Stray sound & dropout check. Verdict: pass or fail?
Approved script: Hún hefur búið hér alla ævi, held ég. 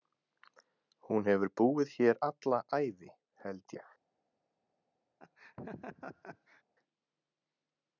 fail